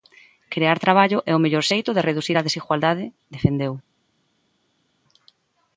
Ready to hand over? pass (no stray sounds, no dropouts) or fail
pass